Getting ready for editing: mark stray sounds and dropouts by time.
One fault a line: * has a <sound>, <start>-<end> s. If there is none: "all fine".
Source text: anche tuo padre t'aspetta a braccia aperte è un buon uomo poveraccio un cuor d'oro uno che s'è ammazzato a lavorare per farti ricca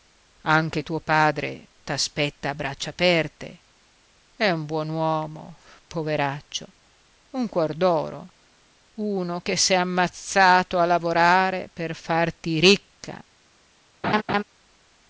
* has a laugh, 14.0-14.4 s